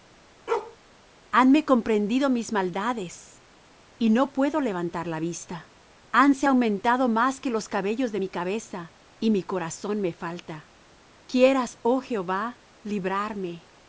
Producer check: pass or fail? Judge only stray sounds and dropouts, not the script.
fail